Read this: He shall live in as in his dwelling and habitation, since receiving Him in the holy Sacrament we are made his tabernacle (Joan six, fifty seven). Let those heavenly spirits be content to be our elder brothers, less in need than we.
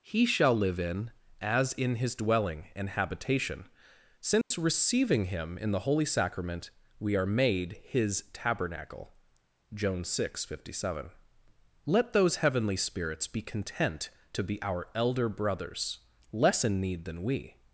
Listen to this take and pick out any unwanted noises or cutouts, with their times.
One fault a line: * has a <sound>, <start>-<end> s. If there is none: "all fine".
* has a dropout, 4.4-4.5 s